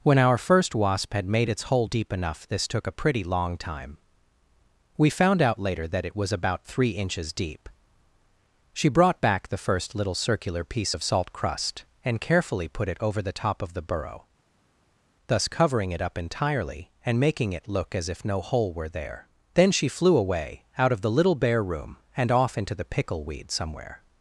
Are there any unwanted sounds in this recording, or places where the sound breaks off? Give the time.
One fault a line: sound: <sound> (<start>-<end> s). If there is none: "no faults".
no faults